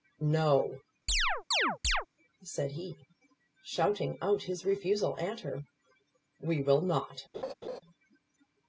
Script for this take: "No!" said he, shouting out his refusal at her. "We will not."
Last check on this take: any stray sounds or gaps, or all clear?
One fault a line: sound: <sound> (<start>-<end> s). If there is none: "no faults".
sound: chirp (1.1-2.1 s)
sound: laugh (7.3-7.8 s)